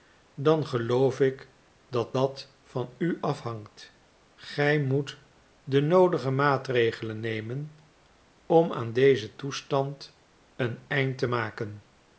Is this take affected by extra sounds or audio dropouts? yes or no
no